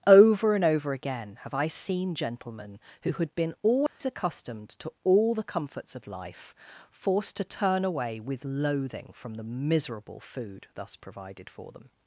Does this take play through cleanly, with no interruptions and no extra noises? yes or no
no